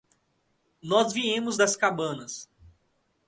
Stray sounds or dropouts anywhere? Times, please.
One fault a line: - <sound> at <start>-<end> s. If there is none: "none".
none